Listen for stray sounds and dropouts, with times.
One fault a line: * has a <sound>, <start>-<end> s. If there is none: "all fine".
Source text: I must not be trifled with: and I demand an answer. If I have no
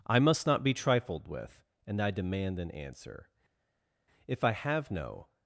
all fine